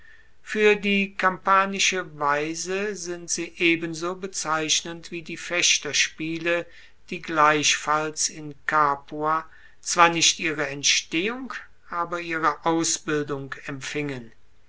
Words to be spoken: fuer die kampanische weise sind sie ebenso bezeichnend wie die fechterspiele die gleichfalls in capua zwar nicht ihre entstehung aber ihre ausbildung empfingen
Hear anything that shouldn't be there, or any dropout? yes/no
no